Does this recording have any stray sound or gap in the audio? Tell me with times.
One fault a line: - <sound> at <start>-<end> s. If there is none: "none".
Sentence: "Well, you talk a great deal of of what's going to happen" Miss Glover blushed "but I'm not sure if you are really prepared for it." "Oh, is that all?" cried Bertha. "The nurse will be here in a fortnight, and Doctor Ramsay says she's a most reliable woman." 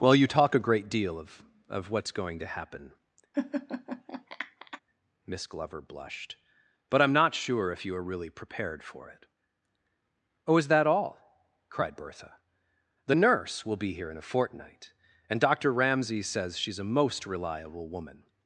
- laugh at 3.3-4.8 s